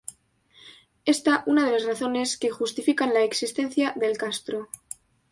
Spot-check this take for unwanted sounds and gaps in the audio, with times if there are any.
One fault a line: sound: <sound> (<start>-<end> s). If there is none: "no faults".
no faults